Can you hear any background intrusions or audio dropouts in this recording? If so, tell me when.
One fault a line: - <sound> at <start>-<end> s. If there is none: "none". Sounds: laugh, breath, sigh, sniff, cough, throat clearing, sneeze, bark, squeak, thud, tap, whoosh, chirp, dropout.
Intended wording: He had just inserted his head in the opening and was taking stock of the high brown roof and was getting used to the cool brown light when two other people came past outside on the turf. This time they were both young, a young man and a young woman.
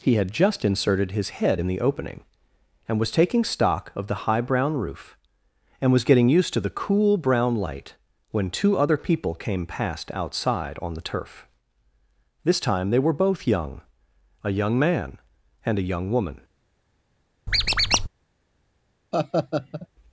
- squeak at 17.5-18.1 s
- laugh at 19.1-19.9 s